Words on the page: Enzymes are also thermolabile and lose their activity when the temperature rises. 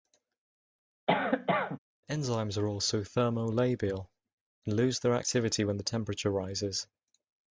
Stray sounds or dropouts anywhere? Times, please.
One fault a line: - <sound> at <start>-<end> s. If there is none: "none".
- cough at 1.1-1.8 s